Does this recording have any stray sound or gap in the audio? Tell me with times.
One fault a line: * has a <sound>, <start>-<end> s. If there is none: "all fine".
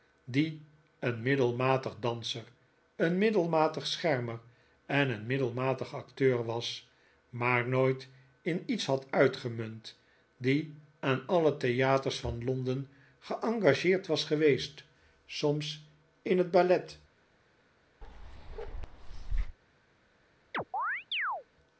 * has a bark, 18.0-19.6 s
* has a chirp, 20.5-21.4 s